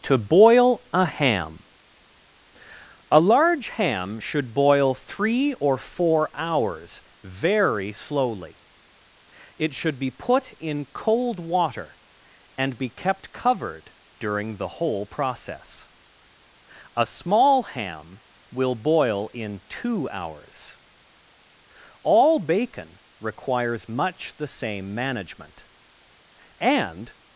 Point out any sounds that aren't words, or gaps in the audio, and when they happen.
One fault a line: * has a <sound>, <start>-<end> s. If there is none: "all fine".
all fine